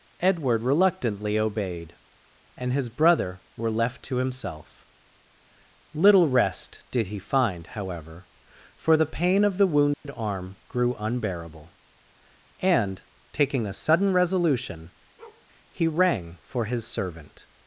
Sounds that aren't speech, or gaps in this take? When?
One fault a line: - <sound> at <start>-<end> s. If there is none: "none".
- dropout at 9.9-10.1 s
- bark at 15.2-15.5 s